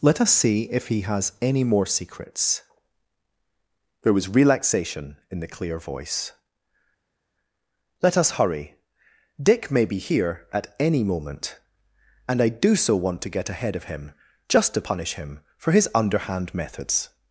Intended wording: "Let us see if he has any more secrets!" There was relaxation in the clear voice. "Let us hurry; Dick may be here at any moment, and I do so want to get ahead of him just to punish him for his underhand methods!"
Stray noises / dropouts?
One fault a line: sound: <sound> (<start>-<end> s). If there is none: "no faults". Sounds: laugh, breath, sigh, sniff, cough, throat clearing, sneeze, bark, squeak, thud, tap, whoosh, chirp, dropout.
no faults